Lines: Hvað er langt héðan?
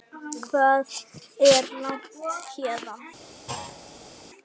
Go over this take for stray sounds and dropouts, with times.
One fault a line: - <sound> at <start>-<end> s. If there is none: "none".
- thud at 3.5-4.1 s